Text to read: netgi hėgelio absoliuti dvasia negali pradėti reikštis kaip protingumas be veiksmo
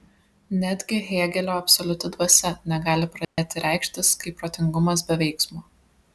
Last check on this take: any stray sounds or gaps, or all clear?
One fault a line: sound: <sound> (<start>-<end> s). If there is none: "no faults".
sound: dropout (3.2-3.4 s)